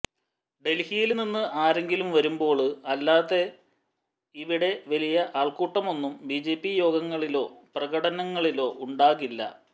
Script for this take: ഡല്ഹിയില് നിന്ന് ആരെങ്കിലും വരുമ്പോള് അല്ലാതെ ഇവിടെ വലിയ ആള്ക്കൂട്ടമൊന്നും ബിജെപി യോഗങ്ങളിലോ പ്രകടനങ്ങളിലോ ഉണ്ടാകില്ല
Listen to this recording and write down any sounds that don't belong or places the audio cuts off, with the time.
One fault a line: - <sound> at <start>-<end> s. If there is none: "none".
none